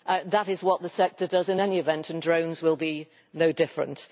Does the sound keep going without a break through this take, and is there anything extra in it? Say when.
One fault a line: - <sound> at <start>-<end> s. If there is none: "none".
none